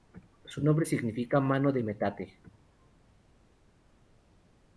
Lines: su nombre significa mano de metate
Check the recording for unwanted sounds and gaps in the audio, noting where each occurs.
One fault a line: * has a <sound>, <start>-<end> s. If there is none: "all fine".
all fine